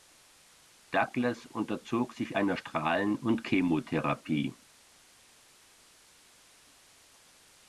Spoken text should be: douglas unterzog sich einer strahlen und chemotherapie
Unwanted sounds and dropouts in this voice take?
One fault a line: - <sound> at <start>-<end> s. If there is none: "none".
none